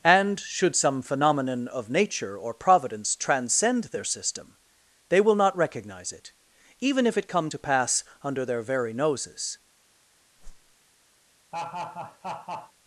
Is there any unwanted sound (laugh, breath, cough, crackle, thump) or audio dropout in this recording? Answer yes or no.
yes